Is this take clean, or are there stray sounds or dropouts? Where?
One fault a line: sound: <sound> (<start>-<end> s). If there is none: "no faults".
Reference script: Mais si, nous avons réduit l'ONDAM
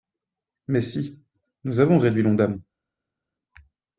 no faults